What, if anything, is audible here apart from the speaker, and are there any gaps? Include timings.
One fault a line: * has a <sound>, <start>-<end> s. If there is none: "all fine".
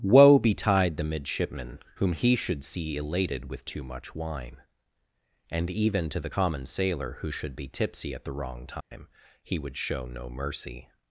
* has a dropout, 8.8-8.9 s